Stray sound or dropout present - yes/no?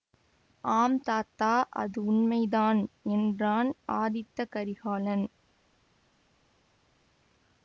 no